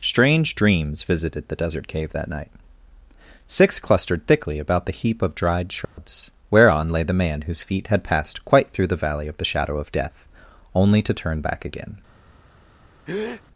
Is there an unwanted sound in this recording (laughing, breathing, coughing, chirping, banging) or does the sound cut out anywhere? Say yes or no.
yes